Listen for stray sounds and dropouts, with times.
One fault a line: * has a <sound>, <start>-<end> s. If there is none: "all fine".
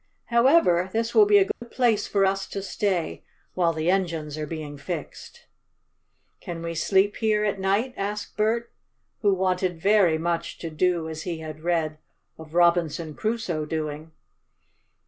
* has a dropout, 1.5-1.6 s